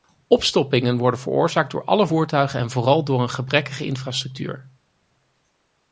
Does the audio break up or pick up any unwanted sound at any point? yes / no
no